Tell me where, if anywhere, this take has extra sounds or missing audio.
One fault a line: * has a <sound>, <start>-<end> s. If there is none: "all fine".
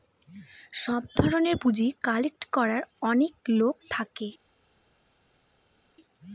all fine